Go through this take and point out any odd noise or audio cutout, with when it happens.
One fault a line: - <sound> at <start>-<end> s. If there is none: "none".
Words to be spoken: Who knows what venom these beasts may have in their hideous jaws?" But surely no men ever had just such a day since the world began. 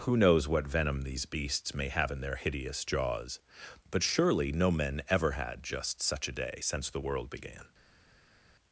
none